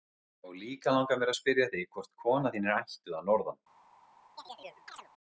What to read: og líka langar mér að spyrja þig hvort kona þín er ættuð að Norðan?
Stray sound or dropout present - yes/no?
yes